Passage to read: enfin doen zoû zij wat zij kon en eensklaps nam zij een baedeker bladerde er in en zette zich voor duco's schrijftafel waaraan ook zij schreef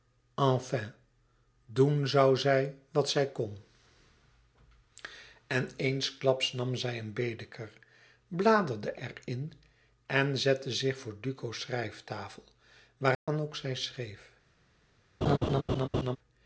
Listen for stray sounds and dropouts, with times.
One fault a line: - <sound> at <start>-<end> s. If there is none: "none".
- dropout at 13.1-13.3 s
- laugh at 15.2-16.2 s